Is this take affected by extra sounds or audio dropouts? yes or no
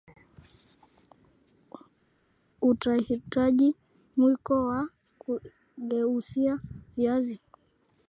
no